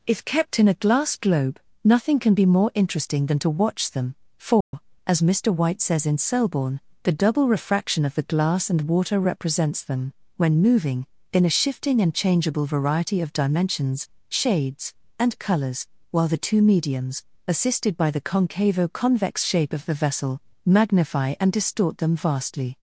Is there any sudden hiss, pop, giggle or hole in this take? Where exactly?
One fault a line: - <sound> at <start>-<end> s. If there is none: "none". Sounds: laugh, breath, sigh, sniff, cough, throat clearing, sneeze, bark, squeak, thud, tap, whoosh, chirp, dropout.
- dropout at 4.6-4.7 s